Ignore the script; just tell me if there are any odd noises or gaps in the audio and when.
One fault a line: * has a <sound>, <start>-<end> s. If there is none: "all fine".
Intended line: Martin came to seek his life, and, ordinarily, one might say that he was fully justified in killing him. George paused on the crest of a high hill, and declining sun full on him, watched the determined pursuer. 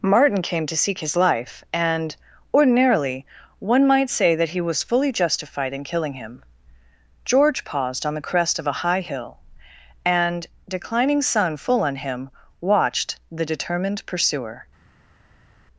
all fine